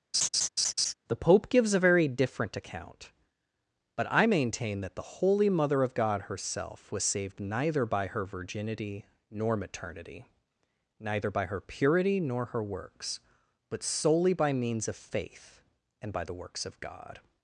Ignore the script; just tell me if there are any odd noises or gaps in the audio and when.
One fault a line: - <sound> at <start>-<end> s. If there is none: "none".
- laugh at 0.1-0.9 s